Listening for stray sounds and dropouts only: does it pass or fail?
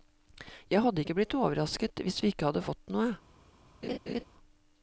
fail